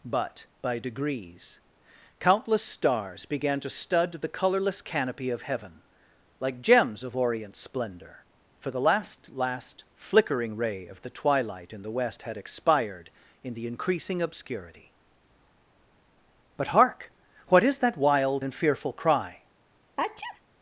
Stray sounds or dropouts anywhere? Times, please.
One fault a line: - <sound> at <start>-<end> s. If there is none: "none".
- sneeze at 20.0-20.4 s